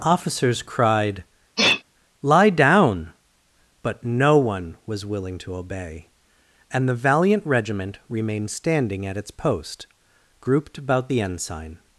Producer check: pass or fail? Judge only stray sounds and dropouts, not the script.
fail